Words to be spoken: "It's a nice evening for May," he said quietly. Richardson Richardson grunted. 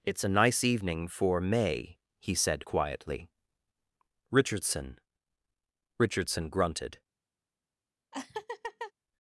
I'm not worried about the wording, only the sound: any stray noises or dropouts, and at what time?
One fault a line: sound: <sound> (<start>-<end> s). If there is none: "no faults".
sound: laugh (8.1-8.9 s)